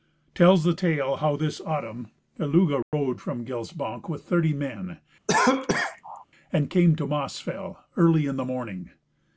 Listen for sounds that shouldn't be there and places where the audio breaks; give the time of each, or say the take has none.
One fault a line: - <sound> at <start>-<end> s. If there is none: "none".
- dropout at 2.8-2.9 s
- cough at 5.3-6.2 s